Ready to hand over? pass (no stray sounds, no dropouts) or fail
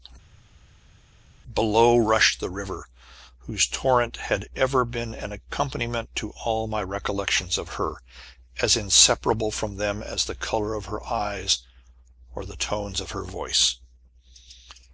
pass